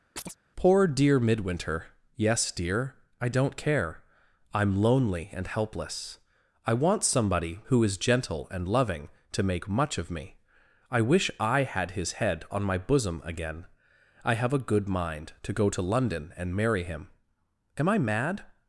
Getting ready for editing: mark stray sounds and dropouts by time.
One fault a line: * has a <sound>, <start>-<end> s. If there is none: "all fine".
* has a chirp, 0.2-0.4 s